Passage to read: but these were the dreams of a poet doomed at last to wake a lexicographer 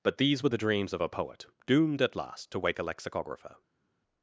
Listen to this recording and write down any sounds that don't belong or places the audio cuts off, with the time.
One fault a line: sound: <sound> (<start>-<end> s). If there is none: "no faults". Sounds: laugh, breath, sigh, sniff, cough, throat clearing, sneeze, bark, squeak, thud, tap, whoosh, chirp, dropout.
no faults